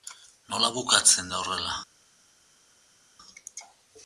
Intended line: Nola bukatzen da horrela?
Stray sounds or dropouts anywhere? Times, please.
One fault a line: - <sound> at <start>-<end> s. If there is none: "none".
none